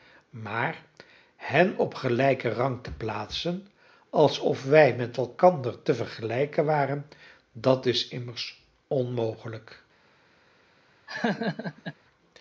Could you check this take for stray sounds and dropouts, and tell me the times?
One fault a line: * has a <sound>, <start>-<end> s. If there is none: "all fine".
* has a laugh, 11.1-12.0 s